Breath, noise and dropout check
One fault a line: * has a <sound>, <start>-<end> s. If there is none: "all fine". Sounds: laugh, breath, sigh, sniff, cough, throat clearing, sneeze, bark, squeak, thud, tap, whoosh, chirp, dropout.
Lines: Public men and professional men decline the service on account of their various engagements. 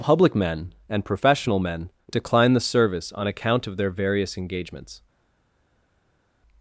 all fine